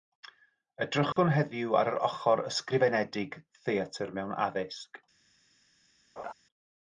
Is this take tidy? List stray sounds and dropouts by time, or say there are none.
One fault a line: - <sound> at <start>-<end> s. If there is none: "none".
- dropout at 1.1-1.2 s
- laugh at 6.2-6.3 s